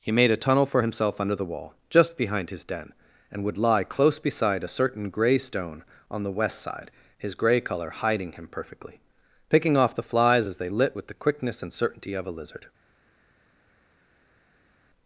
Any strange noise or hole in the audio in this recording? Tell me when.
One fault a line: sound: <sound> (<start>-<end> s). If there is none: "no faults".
no faults